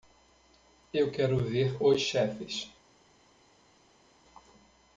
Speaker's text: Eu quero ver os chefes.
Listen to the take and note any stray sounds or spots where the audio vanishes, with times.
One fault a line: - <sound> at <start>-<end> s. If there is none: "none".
none